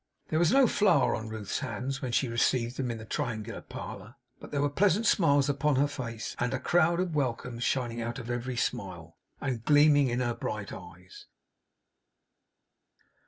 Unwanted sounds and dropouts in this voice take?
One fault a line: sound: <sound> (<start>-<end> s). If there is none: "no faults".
no faults